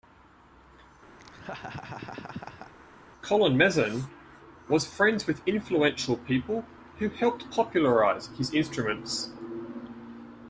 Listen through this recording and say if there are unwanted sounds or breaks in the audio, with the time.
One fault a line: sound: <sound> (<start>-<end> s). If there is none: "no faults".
sound: laugh (1.2-2.7 s)